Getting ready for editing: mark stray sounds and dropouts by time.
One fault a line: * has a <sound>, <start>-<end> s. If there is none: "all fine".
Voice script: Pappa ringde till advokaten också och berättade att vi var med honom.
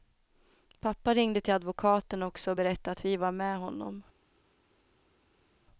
all fine